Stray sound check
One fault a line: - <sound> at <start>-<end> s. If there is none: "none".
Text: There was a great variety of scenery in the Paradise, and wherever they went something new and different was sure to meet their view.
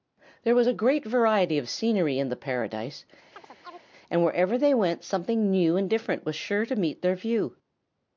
- chirp at 3.3-3.9 s